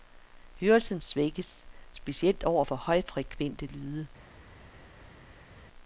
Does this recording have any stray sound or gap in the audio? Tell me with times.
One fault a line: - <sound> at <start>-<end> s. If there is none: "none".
none